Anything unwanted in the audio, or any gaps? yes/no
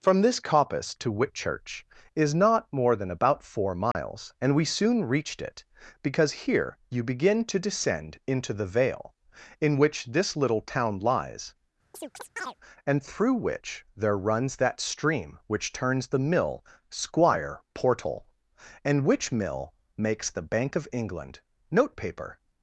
yes